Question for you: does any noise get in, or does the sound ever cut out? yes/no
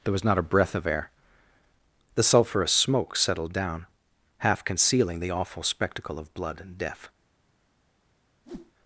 yes